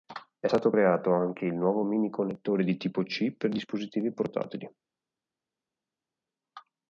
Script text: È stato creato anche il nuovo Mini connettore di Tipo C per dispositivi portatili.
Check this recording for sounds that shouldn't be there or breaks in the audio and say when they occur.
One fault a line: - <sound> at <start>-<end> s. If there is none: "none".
none